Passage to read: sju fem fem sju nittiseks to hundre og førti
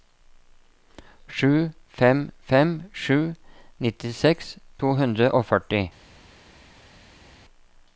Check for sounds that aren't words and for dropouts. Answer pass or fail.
pass